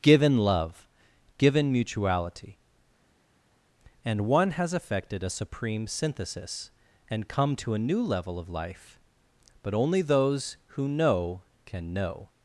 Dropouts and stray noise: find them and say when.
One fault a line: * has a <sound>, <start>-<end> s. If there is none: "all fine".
all fine